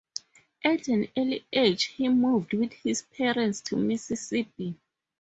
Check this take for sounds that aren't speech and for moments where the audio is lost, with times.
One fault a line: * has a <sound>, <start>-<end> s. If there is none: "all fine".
all fine